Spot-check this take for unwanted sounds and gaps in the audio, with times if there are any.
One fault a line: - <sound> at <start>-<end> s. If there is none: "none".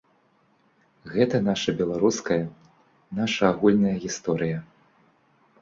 none